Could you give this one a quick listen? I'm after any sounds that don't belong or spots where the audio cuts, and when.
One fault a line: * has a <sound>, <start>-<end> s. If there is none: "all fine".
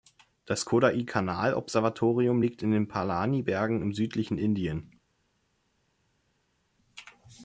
all fine